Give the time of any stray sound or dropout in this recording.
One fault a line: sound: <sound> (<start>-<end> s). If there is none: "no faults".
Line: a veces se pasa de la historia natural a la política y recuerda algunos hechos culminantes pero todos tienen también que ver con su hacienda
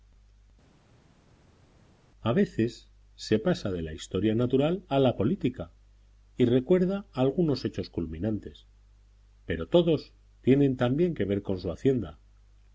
no faults